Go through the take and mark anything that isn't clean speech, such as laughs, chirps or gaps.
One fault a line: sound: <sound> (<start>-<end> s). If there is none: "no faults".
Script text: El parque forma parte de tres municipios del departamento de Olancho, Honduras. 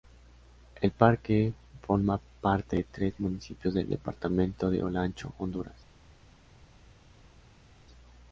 no faults